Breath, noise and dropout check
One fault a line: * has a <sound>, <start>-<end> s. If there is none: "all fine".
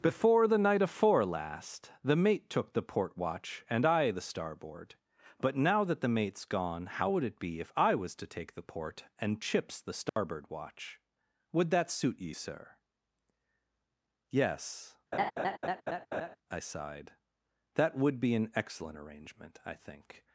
* has a dropout, 10.1-10.2 s
* has a laugh, 15.1-16.4 s